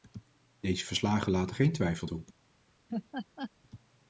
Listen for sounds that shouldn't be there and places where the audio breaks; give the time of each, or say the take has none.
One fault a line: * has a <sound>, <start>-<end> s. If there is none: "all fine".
* has a laugh, 2.9-3.5 s